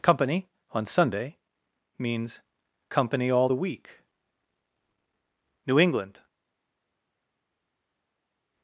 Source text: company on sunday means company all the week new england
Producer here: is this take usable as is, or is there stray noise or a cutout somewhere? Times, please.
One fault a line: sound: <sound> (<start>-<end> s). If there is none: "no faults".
no faults